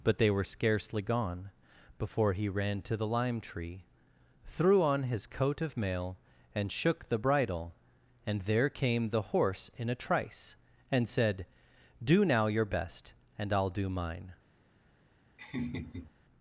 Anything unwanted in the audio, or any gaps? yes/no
yes